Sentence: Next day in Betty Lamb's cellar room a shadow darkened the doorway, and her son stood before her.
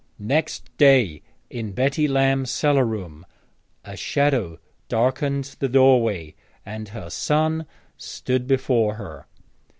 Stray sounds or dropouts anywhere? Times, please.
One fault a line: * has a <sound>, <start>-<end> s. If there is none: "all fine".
all fine